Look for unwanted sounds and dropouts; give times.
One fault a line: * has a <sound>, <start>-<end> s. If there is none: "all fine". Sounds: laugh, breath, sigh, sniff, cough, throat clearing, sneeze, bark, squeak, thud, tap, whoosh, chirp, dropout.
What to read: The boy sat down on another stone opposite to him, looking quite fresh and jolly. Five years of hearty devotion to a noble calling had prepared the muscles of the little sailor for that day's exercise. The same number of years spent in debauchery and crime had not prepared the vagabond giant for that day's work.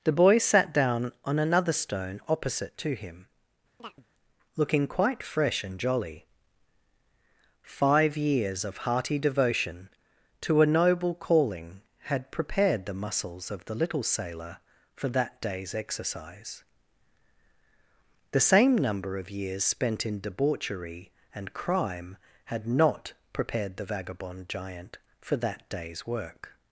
* has a chirp, 3.8-4.1 s